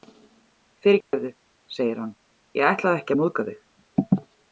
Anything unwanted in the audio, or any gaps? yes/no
yes